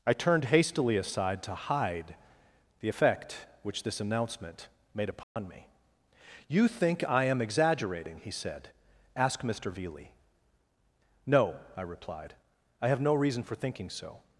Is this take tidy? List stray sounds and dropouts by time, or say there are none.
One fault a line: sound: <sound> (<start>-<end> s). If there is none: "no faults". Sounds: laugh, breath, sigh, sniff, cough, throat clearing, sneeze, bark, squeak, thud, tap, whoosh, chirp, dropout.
sound: dropout (5.2-5.4 s)